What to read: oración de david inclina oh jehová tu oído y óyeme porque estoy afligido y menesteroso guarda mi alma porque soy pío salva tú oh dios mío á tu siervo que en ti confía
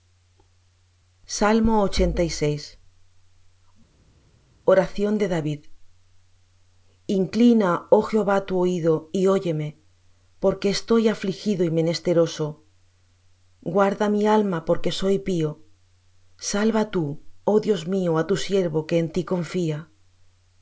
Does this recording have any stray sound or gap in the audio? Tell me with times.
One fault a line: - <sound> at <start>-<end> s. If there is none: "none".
none